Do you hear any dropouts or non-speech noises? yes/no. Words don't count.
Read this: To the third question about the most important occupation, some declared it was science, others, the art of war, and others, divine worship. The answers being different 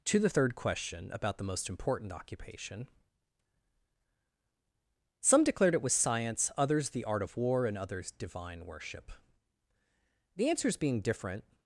no